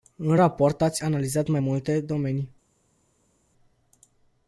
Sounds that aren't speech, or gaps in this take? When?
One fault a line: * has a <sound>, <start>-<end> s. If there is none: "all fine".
all fine